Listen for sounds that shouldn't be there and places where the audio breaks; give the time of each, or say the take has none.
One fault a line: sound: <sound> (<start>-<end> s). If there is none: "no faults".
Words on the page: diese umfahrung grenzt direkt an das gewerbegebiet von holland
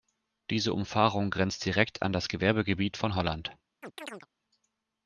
sound: chirp (3.8-4.3 s)